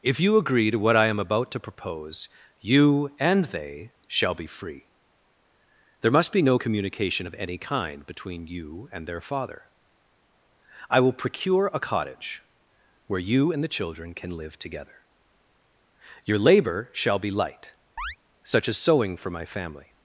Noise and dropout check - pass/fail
fail